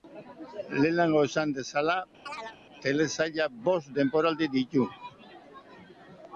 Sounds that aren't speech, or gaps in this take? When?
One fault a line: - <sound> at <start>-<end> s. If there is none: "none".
- chirp at 2.3-2.6 s